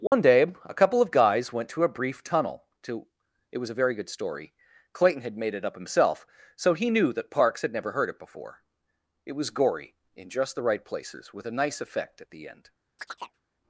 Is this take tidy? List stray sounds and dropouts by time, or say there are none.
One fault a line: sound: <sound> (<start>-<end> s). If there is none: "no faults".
sound: dropout (0.1-0.1 s)
sound: chirp (13.0-13.4 s)